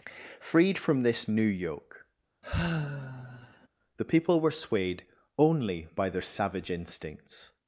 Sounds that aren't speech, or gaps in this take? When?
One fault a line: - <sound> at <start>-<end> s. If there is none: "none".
- sigh at 2.4-3.7 s